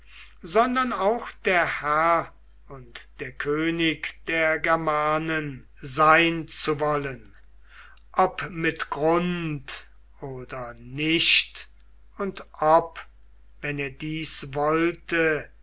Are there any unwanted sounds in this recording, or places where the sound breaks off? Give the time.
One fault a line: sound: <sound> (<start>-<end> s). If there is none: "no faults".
no faults